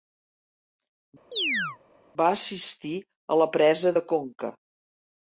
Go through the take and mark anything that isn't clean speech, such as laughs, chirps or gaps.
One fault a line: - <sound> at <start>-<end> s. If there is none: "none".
- chirp at 1.3-1.8 s